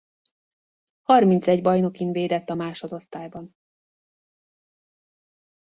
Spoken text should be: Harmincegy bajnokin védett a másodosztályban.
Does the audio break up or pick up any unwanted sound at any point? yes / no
no